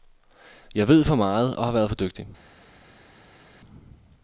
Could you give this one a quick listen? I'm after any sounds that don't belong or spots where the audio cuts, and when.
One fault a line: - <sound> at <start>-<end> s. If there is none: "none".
none